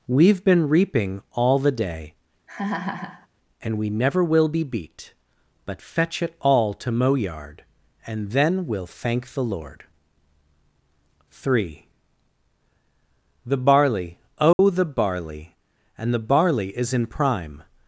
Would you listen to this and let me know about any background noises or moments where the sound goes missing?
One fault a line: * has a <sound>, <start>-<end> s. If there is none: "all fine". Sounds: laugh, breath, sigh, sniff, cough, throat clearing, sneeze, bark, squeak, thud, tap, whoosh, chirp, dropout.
* has a laugh, 2.5-3.3 s
* has a dropout, 14.5-14.6 s